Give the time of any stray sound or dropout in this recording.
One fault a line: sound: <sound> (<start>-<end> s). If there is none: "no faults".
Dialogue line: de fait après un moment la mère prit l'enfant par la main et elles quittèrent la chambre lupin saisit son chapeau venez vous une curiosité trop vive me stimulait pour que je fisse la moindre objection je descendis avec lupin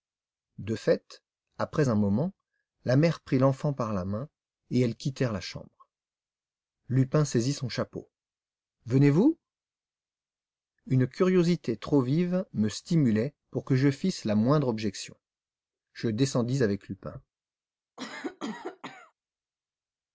sound: cough (18.0-19.1 s)